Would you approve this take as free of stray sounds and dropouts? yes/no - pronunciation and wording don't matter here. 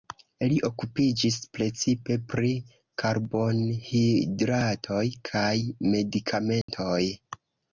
no